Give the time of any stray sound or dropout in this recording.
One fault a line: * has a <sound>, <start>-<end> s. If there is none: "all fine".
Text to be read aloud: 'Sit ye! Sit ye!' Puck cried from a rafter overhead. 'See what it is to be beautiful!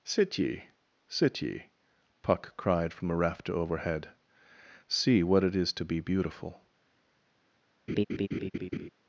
* has a laugh, 7.9-8.9 s